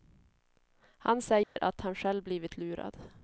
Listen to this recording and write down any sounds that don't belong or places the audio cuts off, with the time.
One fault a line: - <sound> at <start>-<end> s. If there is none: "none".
- dropout at 1.4-1.6 s